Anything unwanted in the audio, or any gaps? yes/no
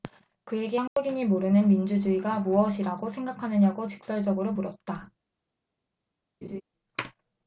yes